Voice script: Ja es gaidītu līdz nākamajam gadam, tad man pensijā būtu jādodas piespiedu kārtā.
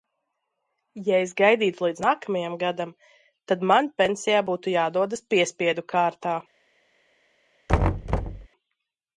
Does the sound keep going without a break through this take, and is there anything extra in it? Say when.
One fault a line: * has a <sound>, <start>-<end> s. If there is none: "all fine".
* has a thud, 7.7-8.5 s